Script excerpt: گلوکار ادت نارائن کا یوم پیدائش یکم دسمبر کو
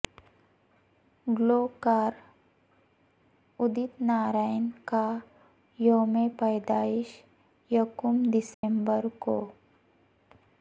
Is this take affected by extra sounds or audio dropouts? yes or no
yes